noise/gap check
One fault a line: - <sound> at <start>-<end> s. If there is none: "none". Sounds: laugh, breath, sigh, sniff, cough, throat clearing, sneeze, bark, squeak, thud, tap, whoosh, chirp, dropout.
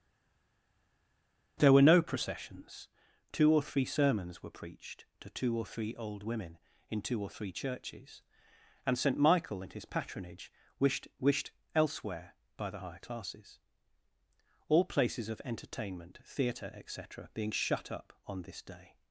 none